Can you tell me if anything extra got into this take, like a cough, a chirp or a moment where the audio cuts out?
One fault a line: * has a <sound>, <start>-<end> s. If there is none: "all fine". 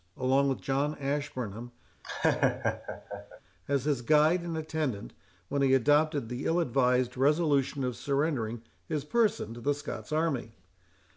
* has a laugh, 2.0-3.4 s